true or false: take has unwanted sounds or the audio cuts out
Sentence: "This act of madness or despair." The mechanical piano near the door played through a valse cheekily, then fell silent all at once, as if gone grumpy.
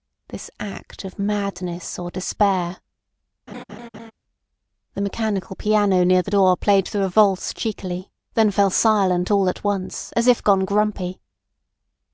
true